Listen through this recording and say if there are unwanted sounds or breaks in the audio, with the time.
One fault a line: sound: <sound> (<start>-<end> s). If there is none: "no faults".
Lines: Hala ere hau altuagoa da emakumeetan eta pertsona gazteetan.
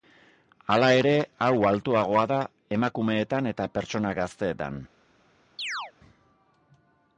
sound: chirp (5.6-5.9 s)